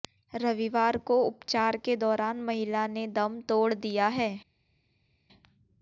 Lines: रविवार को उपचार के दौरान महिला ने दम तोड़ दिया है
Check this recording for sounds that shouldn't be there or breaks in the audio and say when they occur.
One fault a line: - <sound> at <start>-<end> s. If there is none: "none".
none